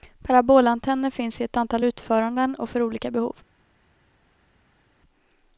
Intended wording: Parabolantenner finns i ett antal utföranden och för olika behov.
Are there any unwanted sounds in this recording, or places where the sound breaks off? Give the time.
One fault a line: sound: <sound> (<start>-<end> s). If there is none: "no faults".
no faults